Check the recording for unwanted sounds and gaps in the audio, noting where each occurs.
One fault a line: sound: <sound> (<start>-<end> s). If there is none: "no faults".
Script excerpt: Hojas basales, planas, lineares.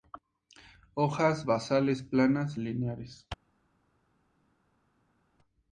no faults